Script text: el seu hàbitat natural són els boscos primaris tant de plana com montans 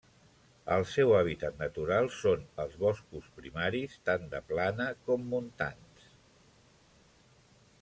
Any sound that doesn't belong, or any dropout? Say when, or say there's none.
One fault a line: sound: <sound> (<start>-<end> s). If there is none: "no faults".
no faults